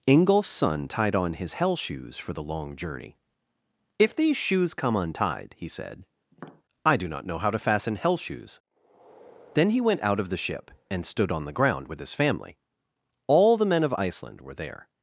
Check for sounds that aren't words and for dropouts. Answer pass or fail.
fail